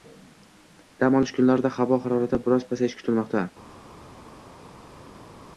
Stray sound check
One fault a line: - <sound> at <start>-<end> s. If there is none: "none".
none